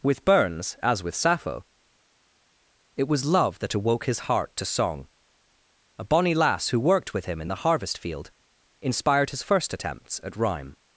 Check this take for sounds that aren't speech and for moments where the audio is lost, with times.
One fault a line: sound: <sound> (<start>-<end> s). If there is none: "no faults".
no faults